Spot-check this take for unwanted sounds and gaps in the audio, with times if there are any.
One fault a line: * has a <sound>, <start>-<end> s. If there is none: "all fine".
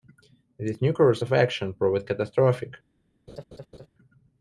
* has a laugh, 3.3-3.9 s